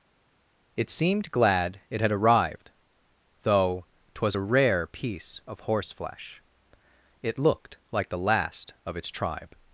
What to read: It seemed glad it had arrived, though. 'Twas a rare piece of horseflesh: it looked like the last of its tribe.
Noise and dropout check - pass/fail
pass